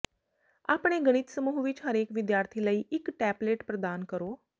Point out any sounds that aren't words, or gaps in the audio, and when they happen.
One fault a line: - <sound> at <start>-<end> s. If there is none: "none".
none